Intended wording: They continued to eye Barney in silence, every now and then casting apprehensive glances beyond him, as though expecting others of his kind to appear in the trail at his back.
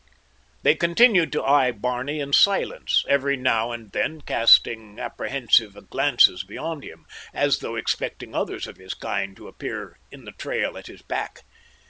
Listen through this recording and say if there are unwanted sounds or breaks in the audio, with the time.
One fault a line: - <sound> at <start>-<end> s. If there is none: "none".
none